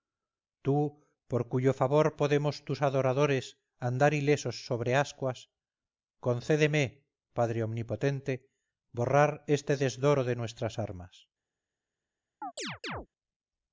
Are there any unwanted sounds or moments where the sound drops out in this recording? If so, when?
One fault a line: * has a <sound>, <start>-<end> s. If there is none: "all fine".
* has a chirp, 12.4-13.1 s